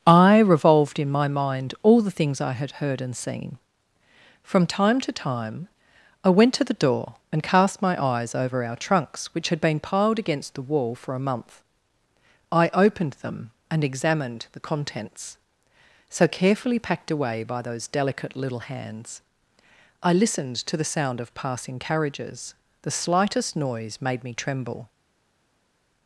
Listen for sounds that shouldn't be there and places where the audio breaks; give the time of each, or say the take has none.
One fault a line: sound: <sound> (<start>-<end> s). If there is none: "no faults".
no faults